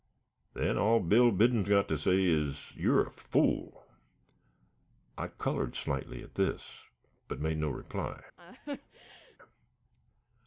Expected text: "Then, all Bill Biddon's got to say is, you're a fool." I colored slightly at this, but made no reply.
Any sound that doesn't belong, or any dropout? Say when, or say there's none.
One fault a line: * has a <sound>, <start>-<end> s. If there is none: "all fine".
* has a laugh, 8.4-9.4 s